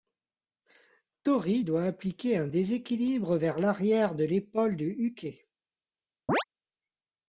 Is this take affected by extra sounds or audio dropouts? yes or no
yes